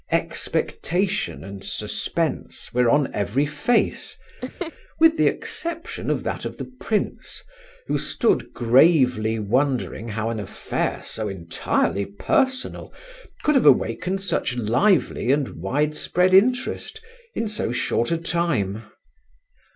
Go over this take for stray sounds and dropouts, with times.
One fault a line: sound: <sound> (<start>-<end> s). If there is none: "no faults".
sound: laugh (4.4-4.7 s)